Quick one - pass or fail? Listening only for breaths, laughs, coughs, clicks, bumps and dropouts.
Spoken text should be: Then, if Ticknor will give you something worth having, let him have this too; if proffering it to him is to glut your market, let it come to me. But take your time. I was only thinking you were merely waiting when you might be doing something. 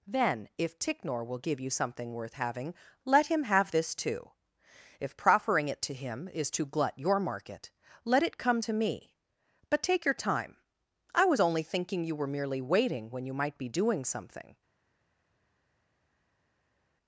pass